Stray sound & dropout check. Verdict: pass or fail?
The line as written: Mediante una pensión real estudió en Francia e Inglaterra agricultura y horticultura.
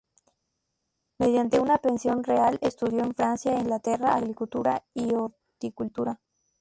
pass